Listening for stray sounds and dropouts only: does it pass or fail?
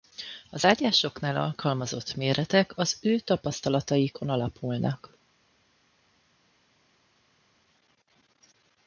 pass